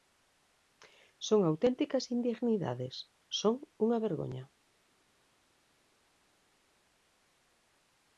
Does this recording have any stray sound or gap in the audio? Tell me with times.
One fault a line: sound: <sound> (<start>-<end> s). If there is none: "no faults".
no faults